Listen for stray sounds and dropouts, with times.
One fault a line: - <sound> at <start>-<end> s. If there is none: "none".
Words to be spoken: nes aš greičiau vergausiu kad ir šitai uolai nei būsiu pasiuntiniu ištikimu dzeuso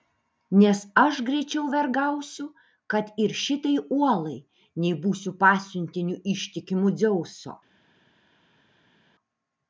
none